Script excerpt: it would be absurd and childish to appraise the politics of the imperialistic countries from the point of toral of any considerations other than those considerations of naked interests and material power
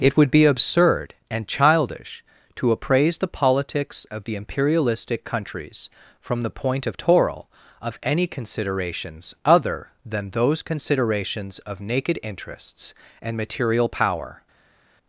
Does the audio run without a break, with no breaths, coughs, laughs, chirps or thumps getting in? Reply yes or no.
yes